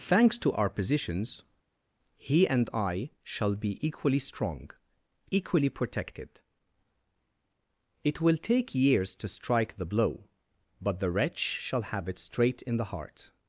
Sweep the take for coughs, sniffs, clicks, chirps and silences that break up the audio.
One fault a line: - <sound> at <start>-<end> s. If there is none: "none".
none